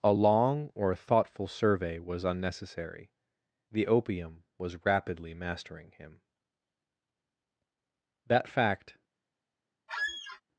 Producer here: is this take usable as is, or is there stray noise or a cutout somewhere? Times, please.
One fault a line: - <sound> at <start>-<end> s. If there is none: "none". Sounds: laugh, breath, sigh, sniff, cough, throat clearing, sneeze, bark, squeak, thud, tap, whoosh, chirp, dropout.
- squeak at 9.9-10.4 s